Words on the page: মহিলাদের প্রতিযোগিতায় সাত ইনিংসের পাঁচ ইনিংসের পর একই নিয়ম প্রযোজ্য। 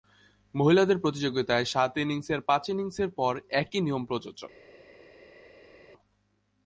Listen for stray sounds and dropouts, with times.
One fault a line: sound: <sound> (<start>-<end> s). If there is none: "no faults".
no faults